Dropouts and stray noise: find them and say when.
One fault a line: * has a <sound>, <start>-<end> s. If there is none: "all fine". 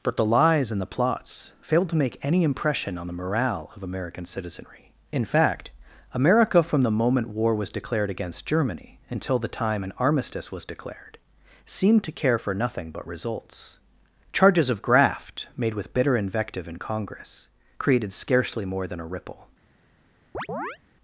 * has a chirp, 20.3-20.8 s